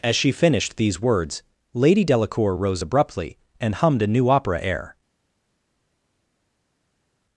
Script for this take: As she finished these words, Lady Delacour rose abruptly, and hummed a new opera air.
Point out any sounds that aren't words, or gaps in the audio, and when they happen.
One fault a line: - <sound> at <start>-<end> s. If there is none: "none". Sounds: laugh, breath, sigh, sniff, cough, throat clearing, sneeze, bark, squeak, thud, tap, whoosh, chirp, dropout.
none